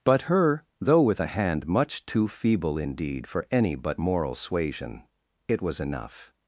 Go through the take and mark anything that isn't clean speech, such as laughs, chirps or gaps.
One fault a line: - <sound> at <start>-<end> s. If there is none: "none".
none